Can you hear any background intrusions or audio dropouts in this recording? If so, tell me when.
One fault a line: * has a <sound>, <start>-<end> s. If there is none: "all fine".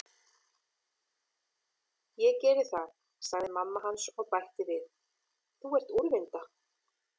all fine